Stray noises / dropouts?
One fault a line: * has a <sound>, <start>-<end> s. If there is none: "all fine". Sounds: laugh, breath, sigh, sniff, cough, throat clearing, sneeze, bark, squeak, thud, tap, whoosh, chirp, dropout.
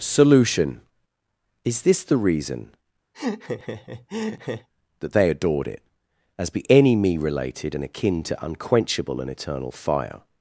* has a laugh, 3.1-4.7 s